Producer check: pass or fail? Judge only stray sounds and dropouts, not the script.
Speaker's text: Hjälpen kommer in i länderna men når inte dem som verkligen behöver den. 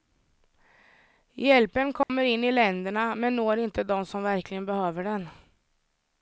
fail